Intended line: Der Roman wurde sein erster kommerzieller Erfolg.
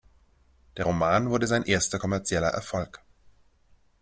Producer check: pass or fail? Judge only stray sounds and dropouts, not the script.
pass